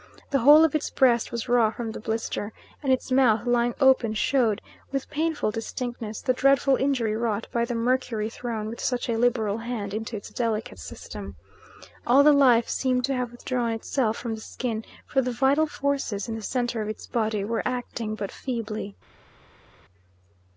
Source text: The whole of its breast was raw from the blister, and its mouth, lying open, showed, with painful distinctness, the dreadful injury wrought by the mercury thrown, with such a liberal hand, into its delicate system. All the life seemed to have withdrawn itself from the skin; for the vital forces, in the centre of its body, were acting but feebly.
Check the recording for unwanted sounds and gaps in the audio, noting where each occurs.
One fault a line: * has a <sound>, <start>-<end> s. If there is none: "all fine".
all fine